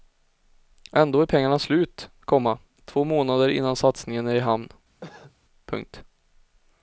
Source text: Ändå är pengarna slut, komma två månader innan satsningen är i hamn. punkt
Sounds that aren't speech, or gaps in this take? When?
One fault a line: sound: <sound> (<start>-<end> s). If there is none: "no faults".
sound: cough (5.0-5.4 s)